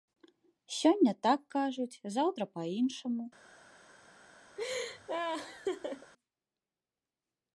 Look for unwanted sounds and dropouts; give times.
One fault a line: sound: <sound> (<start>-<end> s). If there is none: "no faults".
sound: laugh (4.6-6.1 s)